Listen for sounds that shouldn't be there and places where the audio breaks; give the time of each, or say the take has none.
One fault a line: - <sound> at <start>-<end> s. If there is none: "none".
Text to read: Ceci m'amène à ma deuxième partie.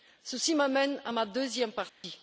- dropout at 1.9-2.0 s